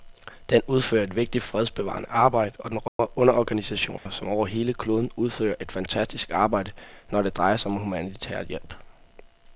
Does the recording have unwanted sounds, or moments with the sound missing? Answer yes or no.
yes